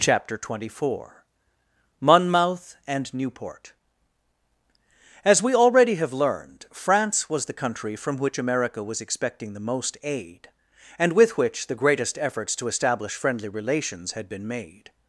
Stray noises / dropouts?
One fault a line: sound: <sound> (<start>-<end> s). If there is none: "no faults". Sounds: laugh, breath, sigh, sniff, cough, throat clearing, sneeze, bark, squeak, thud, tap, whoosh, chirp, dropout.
no faults